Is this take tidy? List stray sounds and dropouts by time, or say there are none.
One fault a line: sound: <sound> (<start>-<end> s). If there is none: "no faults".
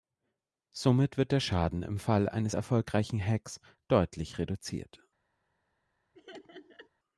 sound: laugh (6.1-6.9 s)